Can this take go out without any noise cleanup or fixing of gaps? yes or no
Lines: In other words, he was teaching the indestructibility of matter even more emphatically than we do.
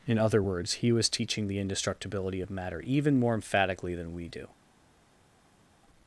yes